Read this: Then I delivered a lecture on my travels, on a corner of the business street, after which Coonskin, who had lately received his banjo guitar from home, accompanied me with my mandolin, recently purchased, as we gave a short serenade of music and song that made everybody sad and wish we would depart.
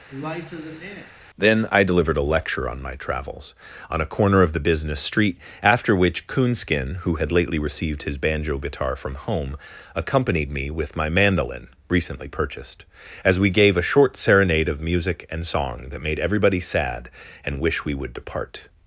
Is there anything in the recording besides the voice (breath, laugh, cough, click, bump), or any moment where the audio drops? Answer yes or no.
yes